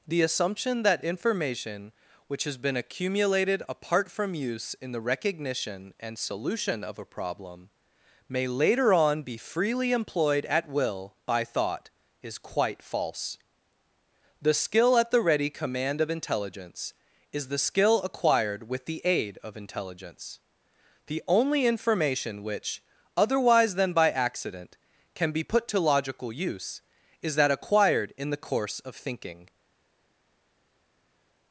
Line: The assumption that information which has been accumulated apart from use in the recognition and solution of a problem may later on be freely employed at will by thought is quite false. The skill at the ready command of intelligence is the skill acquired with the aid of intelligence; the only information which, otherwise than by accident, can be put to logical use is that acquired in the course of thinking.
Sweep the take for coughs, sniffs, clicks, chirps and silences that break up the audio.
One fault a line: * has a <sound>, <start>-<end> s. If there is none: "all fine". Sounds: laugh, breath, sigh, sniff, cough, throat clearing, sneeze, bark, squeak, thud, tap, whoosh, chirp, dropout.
all fine